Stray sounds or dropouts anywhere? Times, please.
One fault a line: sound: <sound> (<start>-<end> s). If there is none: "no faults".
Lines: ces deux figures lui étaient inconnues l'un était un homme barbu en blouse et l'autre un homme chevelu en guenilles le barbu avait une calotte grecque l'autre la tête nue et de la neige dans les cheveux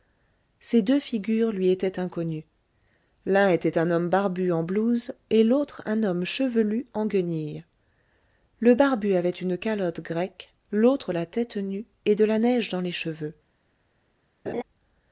sound: laugh (14.5-14.6 s)